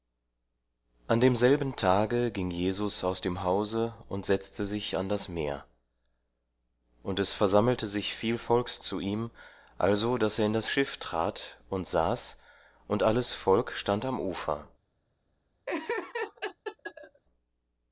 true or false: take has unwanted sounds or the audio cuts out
true